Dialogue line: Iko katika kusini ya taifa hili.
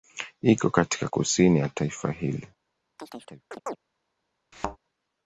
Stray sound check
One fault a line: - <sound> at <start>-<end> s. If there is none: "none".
- chirp at 3.0-3.8 s
- thud at 4.5-4.8 s